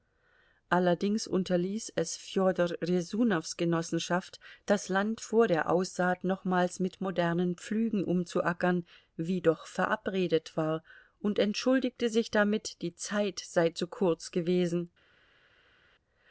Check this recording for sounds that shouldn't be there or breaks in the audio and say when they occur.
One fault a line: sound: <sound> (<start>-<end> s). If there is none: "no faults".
no faults